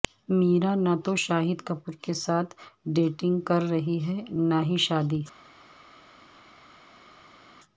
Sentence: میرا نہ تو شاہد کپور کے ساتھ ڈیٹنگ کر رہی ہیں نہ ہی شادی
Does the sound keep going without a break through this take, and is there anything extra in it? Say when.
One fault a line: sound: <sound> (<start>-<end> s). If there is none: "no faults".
no faults